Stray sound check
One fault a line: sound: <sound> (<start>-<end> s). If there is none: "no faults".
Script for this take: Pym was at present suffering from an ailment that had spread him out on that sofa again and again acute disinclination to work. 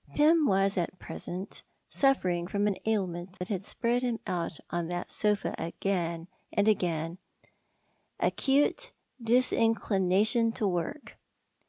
sound: dropout (3.4-3.4 s)